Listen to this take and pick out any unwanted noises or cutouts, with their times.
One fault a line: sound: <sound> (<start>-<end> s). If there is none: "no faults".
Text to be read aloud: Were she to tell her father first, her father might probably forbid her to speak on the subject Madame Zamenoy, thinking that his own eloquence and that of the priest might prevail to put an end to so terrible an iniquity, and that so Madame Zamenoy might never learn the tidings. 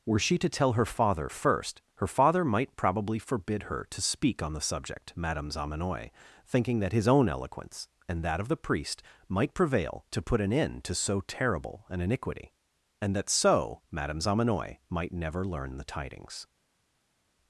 no faults